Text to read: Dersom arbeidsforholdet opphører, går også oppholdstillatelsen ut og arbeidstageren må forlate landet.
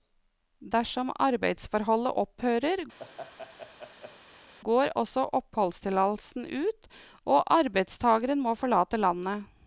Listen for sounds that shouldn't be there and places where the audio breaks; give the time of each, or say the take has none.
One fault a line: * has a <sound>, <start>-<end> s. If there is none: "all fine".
* has a laugh, 3.0-4.5 s